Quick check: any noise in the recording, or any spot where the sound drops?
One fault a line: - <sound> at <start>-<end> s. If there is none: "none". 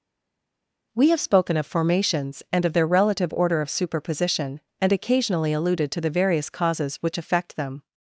none